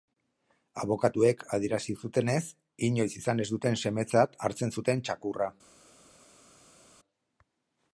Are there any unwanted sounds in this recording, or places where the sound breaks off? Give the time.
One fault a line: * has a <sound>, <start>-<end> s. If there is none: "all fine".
all fine